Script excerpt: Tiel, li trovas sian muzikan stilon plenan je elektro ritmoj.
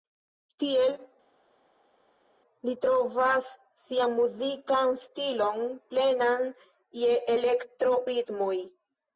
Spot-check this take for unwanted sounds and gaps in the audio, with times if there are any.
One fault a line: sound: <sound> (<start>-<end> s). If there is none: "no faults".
no faults